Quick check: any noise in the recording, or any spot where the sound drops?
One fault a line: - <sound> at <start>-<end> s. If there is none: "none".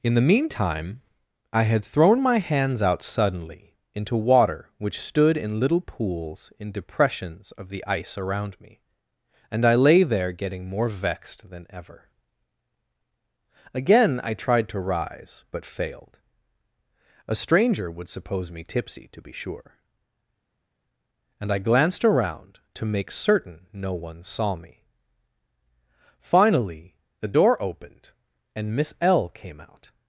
none